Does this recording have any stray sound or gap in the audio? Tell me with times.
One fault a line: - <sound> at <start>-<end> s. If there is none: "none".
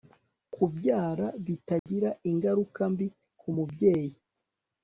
- dropout at 1.8-1.9 s